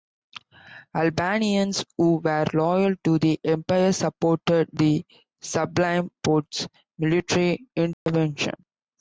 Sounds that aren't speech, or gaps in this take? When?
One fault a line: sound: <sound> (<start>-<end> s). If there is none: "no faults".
sound: dropout (7.9-8.1 s)